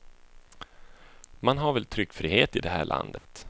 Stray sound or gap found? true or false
true